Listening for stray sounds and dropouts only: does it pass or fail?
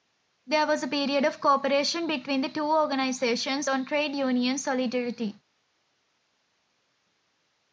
pass